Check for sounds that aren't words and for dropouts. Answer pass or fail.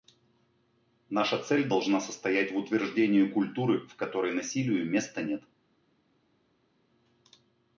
pass